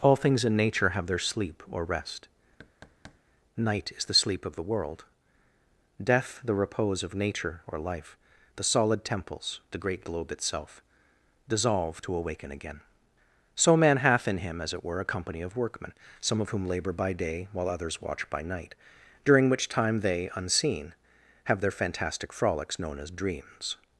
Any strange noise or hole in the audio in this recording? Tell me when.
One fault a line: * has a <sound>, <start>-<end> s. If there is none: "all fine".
* has a thud, 2.6-3.2 s